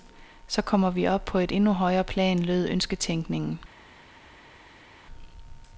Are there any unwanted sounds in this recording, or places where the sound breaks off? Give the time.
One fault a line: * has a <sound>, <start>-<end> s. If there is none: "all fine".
all fine